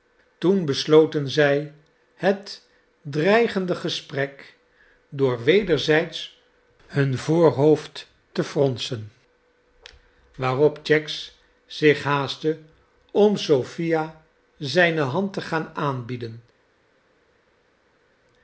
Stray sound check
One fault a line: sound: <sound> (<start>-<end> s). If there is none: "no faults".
no faults